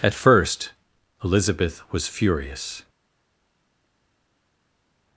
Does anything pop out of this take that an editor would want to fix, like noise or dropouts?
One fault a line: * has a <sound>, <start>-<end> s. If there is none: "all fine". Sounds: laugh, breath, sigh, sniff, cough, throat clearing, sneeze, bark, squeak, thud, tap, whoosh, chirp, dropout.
all fine